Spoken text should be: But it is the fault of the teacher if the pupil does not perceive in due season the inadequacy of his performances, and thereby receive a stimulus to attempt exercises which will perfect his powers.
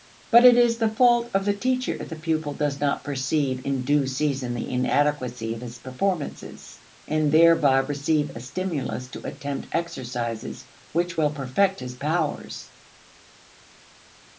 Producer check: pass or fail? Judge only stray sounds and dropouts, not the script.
pass